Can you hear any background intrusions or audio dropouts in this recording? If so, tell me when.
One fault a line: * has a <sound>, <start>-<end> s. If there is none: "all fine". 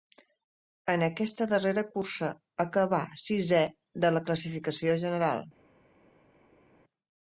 all fine